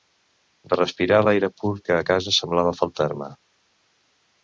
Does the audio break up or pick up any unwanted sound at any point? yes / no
no